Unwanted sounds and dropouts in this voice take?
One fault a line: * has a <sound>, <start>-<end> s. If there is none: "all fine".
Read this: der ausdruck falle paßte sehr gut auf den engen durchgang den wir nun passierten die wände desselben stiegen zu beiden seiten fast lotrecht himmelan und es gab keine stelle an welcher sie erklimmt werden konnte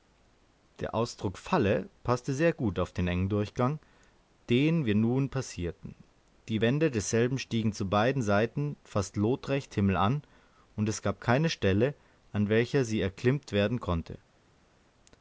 all fine